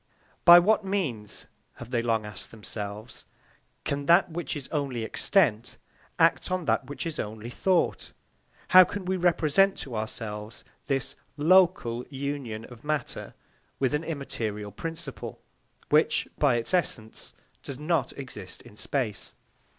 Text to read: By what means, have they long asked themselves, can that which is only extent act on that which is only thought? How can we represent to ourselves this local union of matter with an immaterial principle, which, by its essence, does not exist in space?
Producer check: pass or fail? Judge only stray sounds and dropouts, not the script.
pass